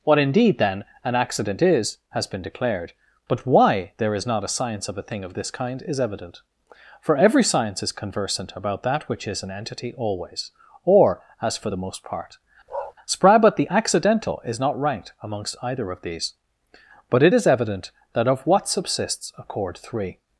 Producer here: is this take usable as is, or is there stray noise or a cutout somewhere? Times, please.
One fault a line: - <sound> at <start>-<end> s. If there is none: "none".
- bark at 12.7-12.9 s